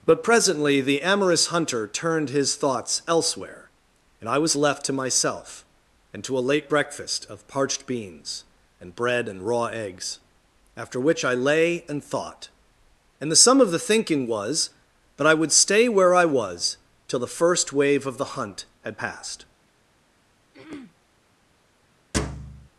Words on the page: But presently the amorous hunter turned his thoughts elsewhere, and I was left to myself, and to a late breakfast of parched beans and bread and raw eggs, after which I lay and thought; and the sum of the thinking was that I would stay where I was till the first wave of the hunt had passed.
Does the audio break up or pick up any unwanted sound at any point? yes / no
yes